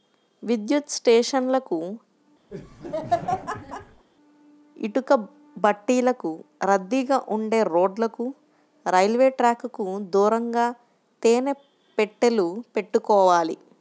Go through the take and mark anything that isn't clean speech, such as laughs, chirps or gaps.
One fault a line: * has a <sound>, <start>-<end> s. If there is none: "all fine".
* has a laugh, 2.5-4.0 s